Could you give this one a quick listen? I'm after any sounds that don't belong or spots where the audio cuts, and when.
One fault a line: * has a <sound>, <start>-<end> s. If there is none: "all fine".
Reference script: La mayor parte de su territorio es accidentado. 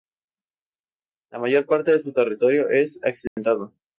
* has a dropout, 3.3-3.4 s